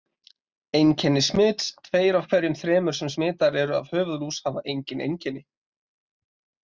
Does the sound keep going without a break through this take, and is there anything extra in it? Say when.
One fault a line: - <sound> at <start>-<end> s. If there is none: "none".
none